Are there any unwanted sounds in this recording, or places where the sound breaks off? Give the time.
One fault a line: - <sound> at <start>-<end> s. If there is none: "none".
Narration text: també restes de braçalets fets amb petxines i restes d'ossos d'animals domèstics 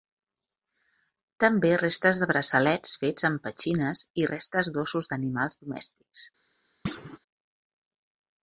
- thud at 6.8-7.2 s